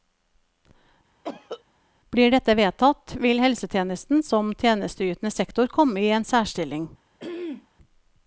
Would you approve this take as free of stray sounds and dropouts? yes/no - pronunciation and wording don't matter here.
no